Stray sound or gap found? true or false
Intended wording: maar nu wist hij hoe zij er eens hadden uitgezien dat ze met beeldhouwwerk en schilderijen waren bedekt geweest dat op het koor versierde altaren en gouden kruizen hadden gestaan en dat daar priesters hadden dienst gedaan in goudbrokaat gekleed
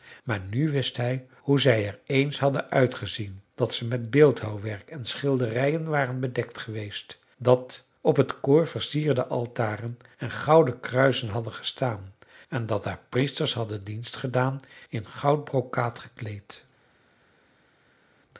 false